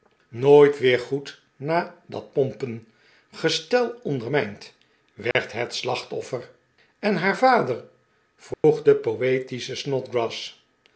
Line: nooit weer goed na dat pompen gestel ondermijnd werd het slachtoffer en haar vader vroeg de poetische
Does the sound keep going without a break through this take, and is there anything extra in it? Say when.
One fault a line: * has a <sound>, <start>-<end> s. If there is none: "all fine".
* has a dropout, 5.3-5.3 s
* has a dropout, 8.5-8.6 s